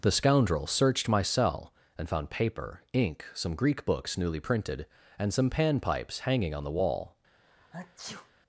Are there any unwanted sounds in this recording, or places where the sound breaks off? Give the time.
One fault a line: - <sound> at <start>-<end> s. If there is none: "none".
- sneeze at 7.4-8.3 s